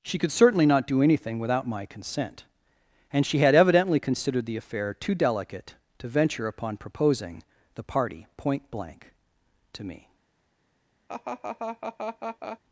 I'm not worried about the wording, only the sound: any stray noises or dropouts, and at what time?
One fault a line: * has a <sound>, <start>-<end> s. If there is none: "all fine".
* has a laugh, 11.1-12.6 s